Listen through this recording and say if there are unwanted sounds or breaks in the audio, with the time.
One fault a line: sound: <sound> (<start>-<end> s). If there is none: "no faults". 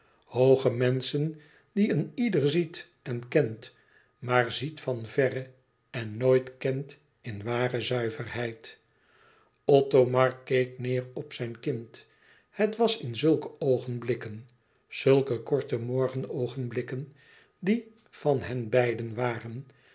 no faults